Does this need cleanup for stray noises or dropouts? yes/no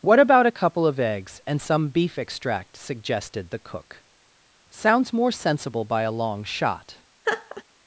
yes